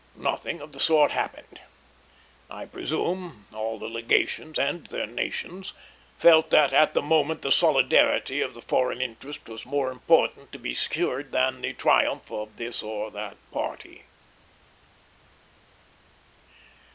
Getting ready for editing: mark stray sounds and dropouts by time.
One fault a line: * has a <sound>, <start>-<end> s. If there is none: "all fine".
all fine